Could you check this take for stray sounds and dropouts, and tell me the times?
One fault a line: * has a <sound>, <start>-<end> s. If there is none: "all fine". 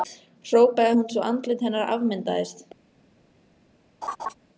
* has a laugh, 4.0-4.3 s